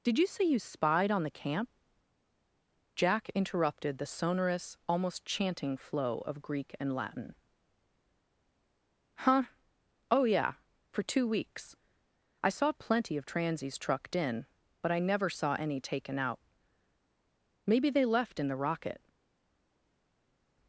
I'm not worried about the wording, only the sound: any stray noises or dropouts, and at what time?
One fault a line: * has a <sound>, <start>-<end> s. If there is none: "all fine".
all fine